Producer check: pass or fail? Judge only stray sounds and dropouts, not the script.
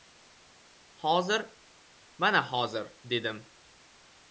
pass